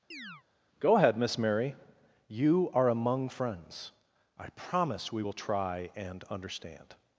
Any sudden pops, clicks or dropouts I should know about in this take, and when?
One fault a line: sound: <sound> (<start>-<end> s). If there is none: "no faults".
sound: chirp (0.1-0.4 s)